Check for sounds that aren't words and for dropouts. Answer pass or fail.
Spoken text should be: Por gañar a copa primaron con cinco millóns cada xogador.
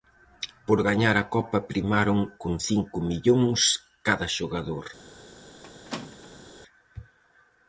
fail